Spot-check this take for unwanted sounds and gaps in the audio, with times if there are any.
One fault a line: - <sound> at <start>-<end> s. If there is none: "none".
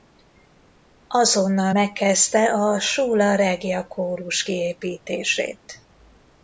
none